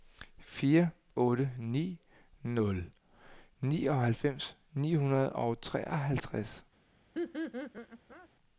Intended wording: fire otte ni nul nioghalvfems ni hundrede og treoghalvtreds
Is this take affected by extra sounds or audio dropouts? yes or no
yes